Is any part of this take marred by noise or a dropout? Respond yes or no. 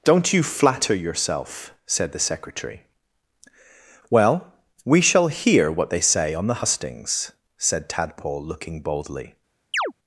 yes